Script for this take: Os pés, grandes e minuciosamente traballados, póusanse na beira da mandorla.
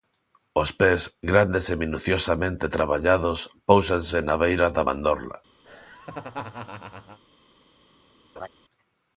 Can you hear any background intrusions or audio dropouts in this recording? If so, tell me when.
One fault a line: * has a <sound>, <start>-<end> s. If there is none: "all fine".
* has a laugh, 5.6-7.2 s
* has a laugh, 8.4-8.5 s